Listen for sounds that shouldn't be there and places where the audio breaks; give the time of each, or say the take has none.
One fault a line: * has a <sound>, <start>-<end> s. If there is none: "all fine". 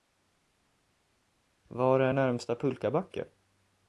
all fine